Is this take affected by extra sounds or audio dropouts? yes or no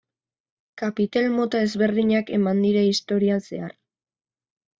no